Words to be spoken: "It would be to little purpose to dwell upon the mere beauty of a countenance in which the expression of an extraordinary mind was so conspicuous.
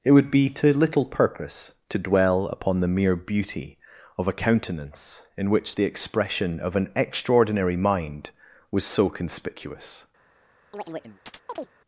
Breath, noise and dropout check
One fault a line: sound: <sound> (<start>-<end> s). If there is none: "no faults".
sound: chirp (10.7-11.7 s)